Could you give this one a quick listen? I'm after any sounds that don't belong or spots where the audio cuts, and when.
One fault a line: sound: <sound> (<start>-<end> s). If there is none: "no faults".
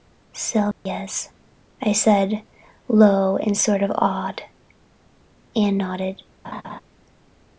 sound: dropout (0.7-0.9 s)
sound: laugh (6.4-6.8 s)